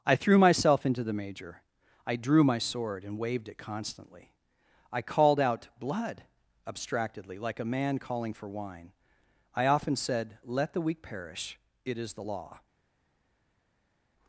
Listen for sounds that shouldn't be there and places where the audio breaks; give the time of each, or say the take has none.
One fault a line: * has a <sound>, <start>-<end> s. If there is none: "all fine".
all fine